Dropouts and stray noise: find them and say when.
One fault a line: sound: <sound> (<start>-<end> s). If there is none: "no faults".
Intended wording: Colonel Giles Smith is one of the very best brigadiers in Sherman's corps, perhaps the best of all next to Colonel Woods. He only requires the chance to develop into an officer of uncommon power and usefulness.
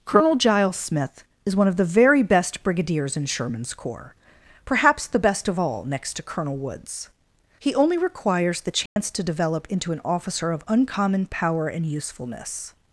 sound: dropout (8.9-9.0 s)